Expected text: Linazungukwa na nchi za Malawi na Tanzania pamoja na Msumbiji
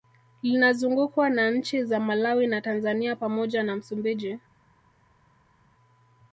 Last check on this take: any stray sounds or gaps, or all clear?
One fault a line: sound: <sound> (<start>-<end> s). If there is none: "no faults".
no faults